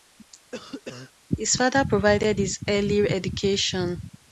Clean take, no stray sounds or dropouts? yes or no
no